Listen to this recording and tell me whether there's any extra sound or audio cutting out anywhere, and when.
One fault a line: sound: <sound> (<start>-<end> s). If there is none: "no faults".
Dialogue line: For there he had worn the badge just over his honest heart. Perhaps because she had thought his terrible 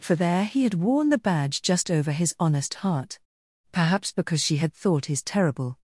no faults